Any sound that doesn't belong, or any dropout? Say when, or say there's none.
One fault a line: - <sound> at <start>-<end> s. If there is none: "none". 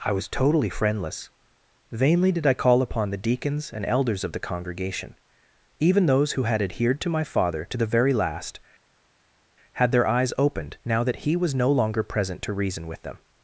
none